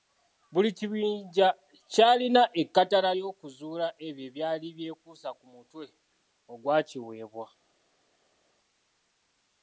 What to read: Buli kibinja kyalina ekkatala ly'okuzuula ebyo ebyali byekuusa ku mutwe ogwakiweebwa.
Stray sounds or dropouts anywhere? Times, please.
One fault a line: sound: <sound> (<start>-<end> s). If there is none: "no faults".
no faults